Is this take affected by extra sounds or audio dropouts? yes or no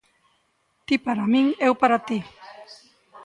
no